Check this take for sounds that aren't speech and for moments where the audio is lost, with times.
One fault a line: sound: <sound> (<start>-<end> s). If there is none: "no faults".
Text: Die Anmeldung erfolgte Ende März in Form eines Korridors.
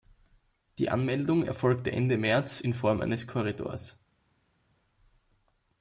no faults